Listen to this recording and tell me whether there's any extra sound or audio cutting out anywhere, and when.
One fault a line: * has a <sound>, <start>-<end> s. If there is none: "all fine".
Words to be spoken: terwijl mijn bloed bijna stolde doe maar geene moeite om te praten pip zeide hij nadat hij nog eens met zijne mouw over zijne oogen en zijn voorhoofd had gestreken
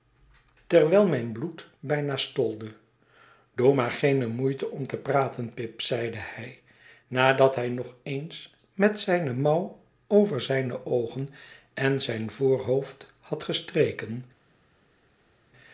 all fine